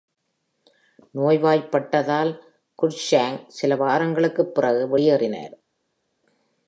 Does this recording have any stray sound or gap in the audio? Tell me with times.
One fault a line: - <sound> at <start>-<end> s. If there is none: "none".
none